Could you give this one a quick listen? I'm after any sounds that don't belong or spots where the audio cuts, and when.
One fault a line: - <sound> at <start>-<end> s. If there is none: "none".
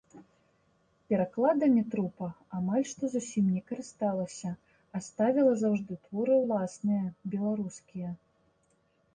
none